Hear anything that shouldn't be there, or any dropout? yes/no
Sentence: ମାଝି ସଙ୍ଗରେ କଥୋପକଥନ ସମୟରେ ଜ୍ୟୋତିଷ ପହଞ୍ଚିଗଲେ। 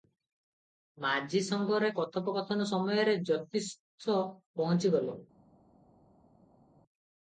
no